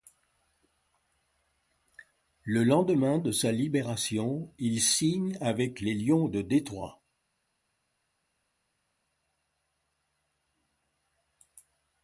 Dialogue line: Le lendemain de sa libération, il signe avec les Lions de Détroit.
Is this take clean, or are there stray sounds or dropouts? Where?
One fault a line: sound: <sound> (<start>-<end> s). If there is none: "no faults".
no faults